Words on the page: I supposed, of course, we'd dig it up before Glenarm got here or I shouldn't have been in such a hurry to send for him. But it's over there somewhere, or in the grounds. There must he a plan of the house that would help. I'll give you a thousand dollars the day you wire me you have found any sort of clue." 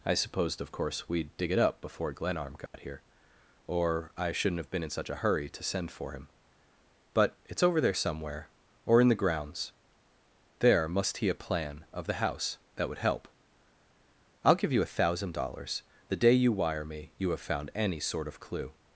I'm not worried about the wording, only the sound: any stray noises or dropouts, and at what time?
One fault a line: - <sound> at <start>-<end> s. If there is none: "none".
- dropout at 2.7-2.7 s